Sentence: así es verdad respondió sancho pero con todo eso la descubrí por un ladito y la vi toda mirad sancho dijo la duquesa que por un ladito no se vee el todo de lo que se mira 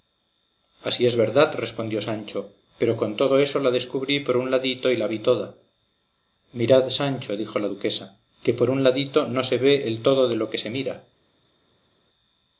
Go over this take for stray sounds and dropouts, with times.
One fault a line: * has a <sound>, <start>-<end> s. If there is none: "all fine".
all fine